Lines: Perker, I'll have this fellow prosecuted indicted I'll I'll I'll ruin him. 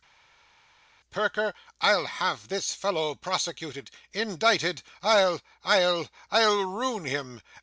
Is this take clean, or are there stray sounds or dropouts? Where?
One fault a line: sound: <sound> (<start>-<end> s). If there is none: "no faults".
no faults